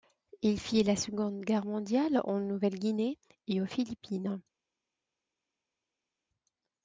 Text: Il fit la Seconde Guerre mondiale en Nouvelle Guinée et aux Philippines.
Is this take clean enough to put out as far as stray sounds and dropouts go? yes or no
yes